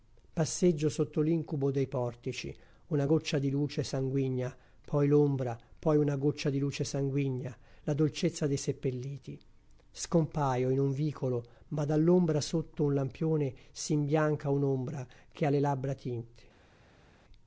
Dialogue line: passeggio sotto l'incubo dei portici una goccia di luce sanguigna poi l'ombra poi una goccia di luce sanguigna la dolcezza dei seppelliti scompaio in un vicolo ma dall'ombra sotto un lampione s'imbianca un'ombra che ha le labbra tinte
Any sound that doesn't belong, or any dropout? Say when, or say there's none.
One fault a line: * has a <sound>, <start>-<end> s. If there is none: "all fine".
all fine